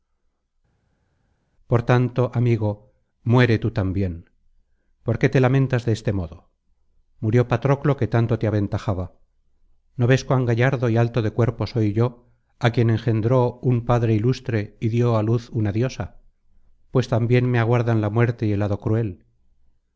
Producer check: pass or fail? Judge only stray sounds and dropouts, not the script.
pass